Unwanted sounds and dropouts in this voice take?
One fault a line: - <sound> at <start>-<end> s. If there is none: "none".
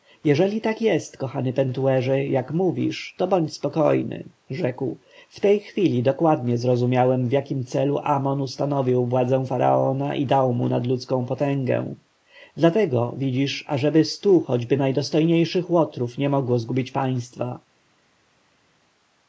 none